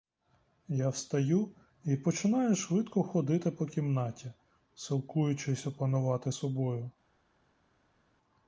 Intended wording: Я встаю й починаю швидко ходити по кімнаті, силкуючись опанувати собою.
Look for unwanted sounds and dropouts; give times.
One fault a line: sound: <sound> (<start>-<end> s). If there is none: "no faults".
no faults